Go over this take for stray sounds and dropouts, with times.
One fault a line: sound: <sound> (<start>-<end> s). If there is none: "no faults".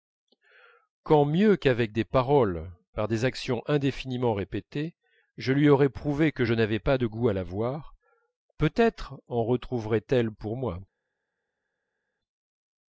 no faults